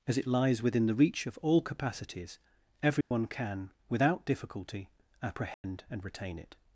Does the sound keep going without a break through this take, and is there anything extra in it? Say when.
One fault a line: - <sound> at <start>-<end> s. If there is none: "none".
- dropout at 3.0-3.1 s
- dropout at 5.5-5.6 s